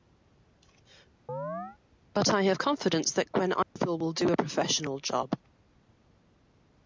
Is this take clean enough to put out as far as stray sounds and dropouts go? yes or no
no